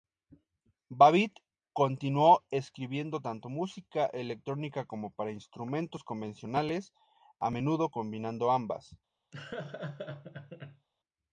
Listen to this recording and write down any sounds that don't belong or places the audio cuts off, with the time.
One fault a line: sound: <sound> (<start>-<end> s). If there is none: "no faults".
sound: laugh (9.3-10.9 s)